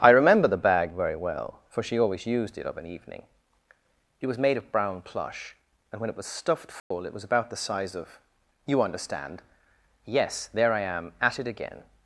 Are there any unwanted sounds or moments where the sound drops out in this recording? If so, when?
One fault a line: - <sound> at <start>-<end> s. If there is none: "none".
- dropout at 6.8-6.9 s